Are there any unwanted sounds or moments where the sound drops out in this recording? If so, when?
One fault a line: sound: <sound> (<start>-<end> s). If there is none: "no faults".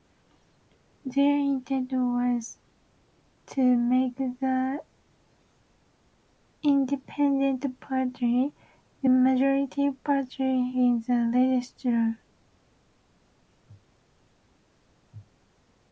no faults